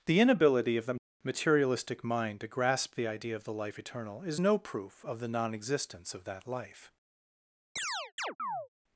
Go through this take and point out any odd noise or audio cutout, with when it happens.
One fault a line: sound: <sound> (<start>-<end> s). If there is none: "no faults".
sound: chirp (7.8-8.7 s)